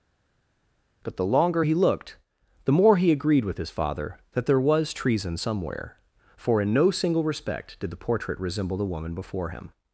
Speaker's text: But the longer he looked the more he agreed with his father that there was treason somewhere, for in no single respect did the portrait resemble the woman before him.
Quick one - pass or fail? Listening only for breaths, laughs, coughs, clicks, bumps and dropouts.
pass